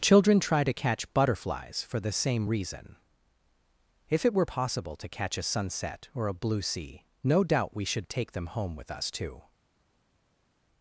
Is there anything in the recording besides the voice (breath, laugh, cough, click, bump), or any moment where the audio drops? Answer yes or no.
no